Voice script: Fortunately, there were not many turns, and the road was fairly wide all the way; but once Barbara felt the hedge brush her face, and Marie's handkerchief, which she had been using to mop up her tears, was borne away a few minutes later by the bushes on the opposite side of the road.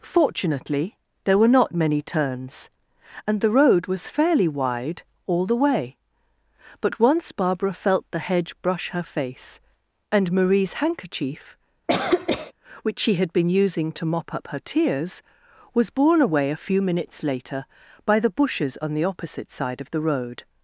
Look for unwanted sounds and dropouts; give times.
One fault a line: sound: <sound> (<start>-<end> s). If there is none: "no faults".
sound: cough (11.9-12.5 s)